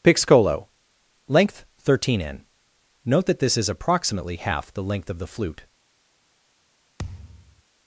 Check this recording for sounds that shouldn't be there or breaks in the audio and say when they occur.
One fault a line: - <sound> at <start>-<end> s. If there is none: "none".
- thud at 7.0-7.6 s